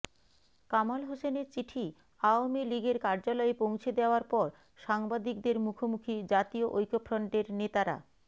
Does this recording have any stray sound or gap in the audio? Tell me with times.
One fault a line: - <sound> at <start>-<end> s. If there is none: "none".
none